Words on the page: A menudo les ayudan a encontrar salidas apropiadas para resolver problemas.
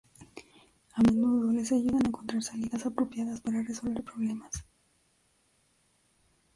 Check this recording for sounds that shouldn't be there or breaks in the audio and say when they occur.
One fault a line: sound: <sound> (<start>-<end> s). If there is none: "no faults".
no faults